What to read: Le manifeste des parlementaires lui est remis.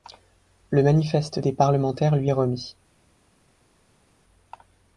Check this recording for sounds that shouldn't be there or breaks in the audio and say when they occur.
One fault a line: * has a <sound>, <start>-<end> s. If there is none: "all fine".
all fine